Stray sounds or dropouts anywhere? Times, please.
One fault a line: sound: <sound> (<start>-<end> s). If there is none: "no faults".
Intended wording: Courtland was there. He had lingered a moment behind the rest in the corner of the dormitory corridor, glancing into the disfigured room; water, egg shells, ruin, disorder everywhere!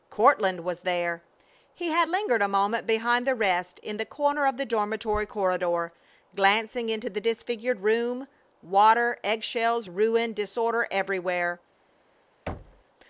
sound: thud (12.5-12.8 s)